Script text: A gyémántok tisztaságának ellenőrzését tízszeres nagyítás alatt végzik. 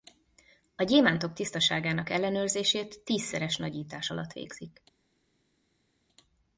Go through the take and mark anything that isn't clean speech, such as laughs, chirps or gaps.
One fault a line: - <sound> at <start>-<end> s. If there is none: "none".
none